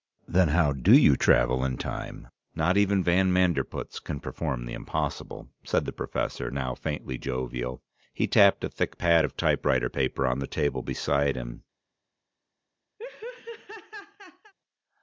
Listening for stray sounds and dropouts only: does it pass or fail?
fail